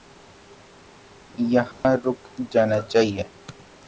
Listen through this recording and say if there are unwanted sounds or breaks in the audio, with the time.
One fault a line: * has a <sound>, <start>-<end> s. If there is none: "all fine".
* has a dropout, 1.7-1.8 s